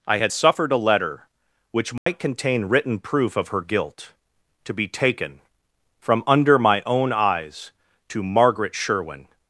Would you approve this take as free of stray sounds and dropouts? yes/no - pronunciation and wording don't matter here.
no